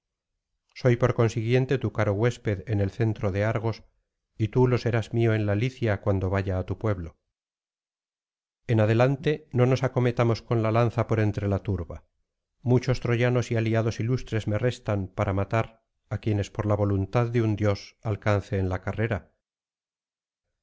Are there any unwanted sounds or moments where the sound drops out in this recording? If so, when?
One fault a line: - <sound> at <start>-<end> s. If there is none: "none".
none